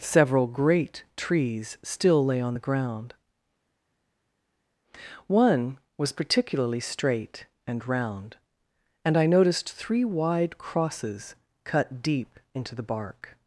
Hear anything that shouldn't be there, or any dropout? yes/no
no